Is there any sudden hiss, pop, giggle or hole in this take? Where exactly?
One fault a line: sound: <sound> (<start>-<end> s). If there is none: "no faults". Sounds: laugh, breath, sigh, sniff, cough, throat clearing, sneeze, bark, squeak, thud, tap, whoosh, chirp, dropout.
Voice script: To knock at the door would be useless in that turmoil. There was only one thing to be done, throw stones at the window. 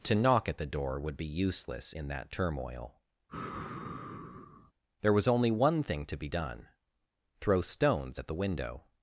sound: sigh (3.3-4.7 s)